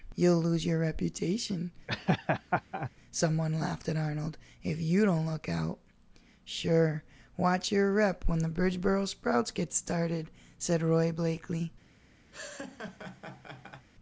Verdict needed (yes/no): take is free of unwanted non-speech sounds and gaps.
no